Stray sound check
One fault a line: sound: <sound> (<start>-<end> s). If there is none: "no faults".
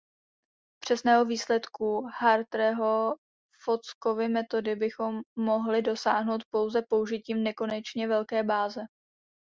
no faults